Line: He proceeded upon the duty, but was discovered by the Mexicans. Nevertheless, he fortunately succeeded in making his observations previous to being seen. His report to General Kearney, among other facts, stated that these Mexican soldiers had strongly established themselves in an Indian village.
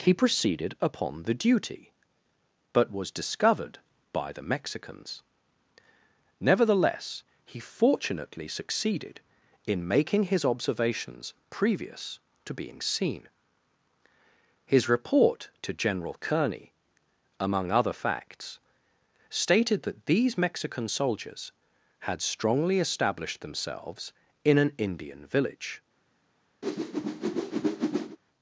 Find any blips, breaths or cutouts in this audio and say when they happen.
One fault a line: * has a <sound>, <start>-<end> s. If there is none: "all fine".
* has a whoosh, 26.6-28.2 s